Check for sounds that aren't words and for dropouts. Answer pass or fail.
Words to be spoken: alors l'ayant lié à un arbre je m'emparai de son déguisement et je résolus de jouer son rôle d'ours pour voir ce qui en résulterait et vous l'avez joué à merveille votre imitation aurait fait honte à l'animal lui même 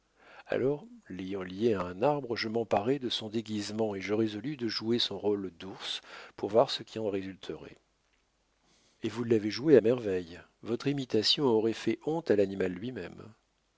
pass